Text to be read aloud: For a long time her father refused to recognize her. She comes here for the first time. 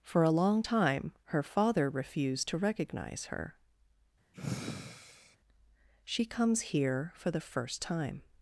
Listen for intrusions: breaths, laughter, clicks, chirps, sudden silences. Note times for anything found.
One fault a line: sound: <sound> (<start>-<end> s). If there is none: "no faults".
sound: sigh (4.3-5.4 s)